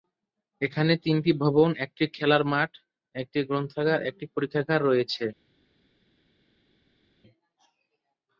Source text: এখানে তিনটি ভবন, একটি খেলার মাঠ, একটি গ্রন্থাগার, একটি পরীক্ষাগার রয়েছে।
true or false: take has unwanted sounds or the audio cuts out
false